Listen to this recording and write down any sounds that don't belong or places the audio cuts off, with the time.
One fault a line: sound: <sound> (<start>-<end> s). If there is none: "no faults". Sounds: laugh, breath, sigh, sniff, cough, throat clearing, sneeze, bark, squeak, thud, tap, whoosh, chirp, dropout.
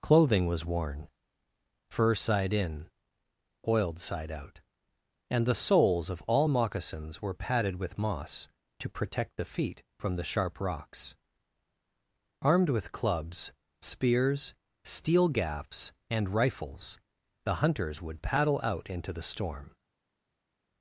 no faults